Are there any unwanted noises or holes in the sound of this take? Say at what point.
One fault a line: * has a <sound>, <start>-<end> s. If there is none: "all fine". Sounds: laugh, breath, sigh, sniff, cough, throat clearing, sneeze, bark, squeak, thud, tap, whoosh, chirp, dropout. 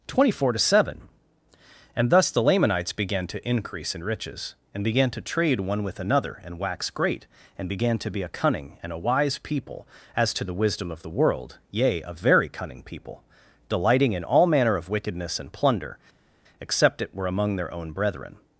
all fine